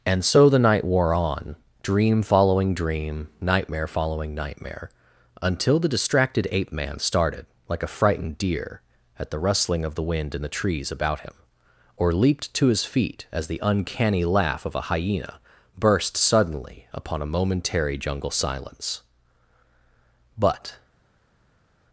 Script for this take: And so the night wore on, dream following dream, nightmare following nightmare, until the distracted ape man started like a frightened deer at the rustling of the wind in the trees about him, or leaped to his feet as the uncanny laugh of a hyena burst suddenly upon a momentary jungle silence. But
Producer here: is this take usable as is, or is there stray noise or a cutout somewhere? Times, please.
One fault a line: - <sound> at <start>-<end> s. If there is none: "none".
none